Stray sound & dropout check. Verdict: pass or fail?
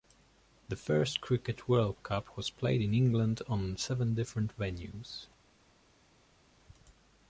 pass